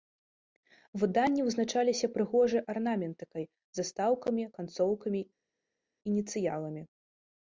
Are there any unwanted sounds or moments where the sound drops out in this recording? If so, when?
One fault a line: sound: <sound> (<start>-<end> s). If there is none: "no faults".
no faults